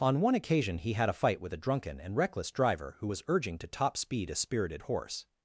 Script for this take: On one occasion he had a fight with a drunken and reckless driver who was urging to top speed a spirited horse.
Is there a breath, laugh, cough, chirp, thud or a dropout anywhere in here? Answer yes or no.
no